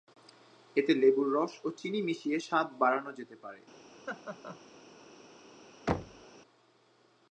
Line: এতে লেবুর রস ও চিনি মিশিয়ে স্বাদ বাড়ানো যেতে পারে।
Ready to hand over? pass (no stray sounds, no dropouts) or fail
fail